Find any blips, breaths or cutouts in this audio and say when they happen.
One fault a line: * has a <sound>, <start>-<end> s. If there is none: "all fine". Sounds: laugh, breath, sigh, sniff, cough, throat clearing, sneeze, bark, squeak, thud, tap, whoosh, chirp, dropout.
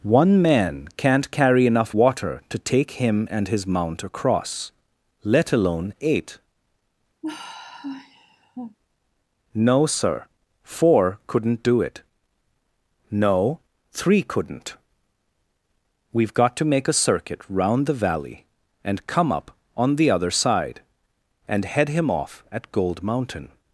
* has a sigh, 7.2-8.8 s